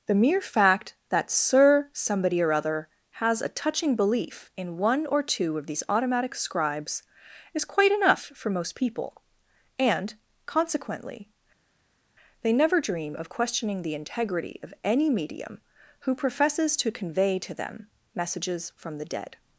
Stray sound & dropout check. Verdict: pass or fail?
pass